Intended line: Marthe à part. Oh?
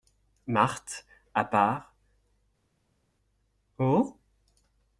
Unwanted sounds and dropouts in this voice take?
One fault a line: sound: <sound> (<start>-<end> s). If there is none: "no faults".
no faults